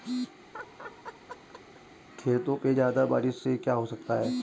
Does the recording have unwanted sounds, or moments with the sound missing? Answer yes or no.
yes